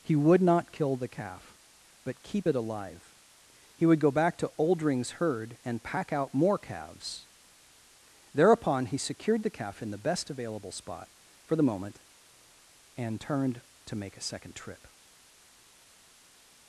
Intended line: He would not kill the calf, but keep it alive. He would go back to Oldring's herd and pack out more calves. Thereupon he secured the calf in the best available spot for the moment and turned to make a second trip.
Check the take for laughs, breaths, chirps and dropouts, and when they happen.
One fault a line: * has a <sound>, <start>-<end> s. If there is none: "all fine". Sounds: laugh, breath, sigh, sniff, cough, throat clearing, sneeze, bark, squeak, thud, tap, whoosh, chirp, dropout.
all fine